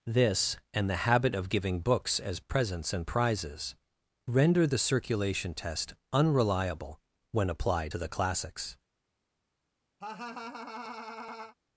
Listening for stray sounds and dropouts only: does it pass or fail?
fail